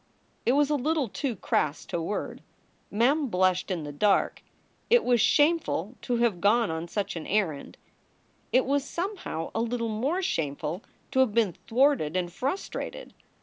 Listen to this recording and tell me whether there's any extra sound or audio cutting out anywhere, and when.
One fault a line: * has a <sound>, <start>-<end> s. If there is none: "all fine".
all fine